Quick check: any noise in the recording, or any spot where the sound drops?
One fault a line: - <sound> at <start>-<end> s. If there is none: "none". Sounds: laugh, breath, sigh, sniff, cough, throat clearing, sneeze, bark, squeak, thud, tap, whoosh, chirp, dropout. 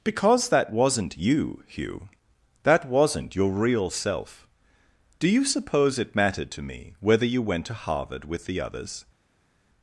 none